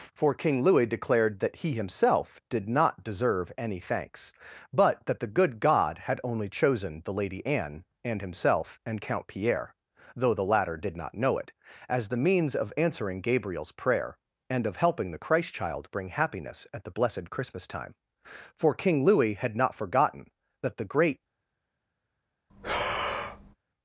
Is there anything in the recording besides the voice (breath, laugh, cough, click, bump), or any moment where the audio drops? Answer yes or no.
yes